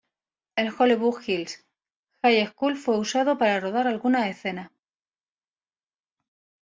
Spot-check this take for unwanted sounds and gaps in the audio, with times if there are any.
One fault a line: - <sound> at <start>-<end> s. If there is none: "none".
none